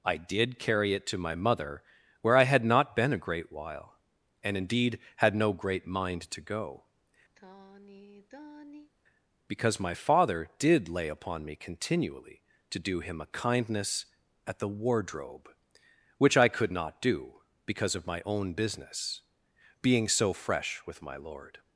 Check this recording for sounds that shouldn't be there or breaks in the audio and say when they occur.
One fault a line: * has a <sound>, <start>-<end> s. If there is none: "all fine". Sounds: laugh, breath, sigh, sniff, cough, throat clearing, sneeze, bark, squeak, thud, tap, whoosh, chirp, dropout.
* has a sigh, 7.4-8.9 s